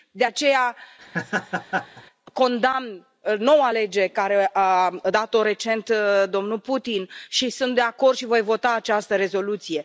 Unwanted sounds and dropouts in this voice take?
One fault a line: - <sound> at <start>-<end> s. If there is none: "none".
- laugh at 1.0-2.0 s